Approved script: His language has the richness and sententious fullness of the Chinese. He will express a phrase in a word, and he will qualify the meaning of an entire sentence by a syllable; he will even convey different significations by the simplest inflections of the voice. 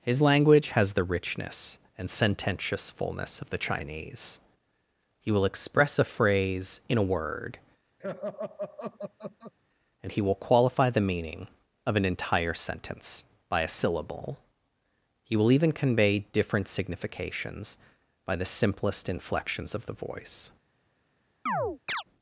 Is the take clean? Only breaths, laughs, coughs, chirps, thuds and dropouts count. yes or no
no